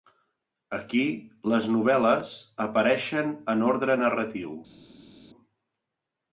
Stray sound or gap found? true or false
false